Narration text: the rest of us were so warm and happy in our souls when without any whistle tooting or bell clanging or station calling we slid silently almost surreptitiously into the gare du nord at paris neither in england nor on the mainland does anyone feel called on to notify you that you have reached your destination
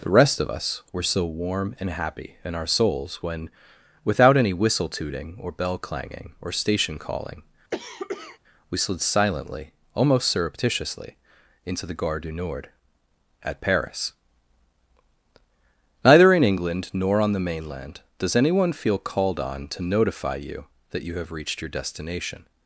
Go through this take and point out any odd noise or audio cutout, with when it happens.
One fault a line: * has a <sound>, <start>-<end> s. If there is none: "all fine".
* has a cough, 7.7-8.4 s